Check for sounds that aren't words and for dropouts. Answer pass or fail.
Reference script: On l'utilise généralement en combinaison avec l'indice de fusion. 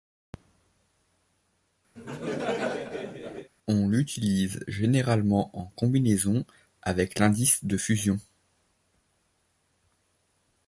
fail